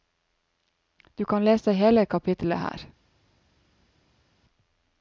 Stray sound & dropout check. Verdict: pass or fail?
pass